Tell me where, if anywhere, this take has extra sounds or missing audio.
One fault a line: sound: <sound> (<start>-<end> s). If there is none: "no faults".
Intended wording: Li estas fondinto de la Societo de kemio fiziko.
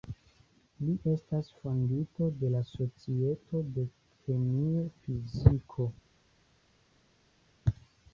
no faults